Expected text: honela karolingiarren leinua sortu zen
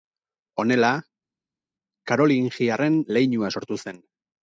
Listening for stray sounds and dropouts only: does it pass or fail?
pass